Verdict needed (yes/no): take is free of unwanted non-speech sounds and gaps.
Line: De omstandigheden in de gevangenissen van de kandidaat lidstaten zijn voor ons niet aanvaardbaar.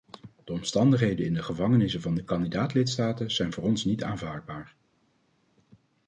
yes